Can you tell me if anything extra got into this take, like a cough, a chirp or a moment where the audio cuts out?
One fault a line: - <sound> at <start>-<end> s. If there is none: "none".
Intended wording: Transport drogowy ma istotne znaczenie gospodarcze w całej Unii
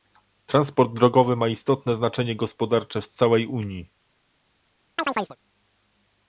- chirp at 5.0-5.4 s